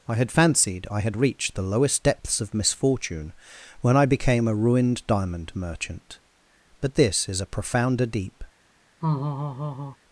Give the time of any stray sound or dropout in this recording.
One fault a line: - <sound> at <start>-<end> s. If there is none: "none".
- laugh at 9.0-10.0 s